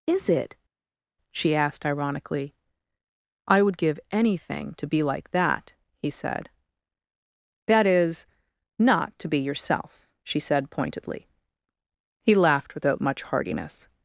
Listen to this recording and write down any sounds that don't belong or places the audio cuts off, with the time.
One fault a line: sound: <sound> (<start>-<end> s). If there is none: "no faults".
no faults